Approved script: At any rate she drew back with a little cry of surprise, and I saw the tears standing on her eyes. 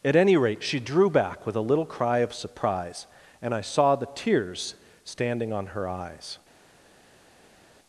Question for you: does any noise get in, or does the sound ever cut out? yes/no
no